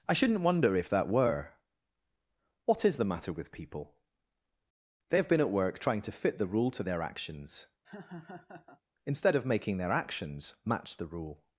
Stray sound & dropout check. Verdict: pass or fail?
fail